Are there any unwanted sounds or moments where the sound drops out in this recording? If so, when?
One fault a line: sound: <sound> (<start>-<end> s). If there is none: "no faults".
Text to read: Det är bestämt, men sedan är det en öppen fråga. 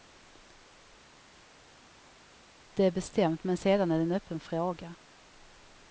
no faults